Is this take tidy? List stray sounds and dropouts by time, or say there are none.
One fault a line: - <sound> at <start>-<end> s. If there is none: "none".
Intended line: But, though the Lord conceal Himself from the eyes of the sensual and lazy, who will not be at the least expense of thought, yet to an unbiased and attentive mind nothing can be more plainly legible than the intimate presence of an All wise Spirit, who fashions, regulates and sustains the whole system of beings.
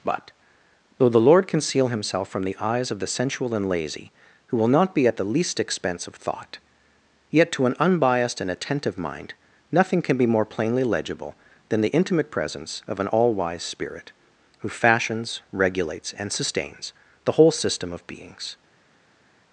none